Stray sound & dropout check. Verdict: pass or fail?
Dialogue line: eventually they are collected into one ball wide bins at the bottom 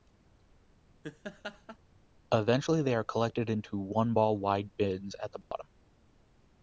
fail